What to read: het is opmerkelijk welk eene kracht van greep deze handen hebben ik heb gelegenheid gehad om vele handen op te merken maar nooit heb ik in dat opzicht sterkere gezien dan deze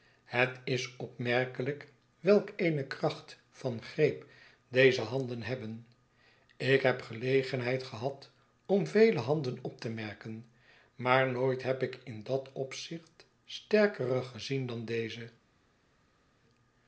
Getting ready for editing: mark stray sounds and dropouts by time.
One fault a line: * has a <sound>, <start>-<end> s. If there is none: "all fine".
all fine